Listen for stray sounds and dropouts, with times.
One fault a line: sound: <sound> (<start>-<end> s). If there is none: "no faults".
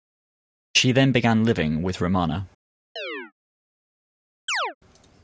sound: chirp (3.0-3.3 s)
sound: chirp (4.5-4.8 s)